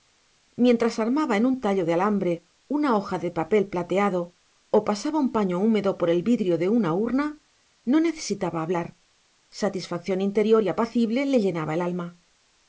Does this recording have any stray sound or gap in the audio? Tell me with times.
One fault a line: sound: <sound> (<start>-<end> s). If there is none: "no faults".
no faults